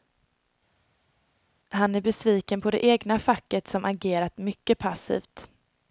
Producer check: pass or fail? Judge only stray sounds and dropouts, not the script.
pass